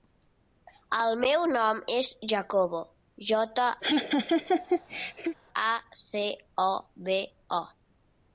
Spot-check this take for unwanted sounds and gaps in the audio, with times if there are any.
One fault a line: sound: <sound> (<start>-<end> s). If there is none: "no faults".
sound: laugh (3.8-5.4 s)